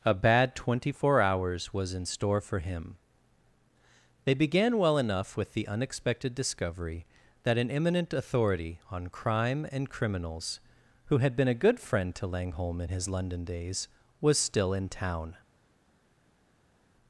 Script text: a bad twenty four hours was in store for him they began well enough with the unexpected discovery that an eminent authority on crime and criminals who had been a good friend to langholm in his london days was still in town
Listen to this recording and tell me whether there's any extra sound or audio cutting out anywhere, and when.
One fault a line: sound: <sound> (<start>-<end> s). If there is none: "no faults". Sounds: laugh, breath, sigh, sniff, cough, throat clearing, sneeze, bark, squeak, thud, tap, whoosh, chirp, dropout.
no faults